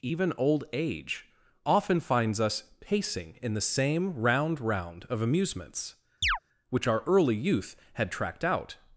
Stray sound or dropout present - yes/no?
yes